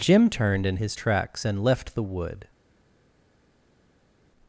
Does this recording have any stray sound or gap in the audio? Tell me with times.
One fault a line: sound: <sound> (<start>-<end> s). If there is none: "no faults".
no faults